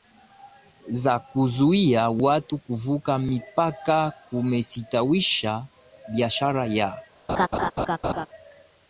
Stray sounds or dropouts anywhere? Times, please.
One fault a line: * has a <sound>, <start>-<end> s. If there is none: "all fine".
* has a laugh, 7.3-8.3 s